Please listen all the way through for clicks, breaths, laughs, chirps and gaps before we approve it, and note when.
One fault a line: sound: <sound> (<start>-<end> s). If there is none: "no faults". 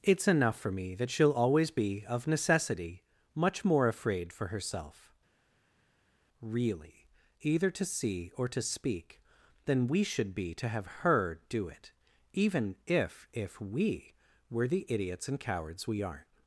no faults